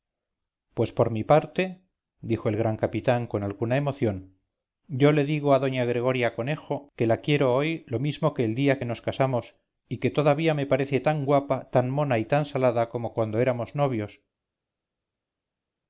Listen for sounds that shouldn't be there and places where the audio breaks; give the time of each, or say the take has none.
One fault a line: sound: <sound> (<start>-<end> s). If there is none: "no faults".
no faults